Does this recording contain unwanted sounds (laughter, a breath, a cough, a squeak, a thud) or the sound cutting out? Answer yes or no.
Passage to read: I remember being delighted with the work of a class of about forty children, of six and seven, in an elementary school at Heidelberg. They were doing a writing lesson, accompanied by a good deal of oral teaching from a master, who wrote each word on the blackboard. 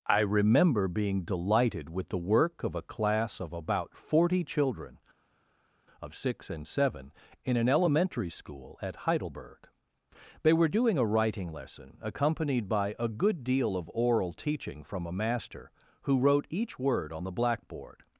no